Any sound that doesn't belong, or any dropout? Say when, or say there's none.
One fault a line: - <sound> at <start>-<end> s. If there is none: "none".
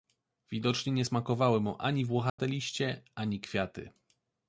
- dropout at 2.3-2.4 s